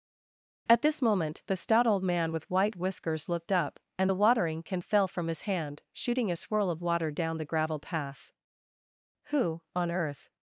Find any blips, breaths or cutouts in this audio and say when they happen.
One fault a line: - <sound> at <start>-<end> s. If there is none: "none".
none